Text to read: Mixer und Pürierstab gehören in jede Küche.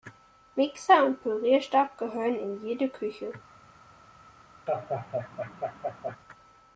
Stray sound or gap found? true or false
true